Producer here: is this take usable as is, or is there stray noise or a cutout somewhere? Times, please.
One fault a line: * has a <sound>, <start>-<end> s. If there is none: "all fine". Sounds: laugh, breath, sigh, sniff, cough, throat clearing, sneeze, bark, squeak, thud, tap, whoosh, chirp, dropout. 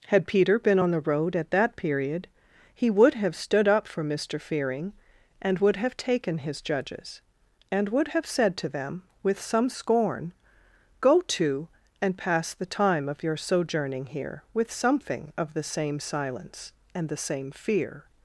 all fine